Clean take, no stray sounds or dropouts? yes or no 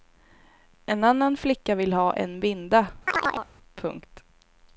no